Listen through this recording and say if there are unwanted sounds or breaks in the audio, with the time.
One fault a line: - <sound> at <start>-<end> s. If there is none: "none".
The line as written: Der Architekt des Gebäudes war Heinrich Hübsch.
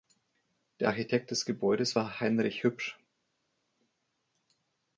none